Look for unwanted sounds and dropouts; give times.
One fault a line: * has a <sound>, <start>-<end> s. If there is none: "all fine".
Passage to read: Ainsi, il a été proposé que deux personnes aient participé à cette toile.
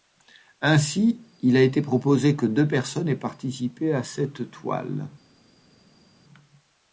all fine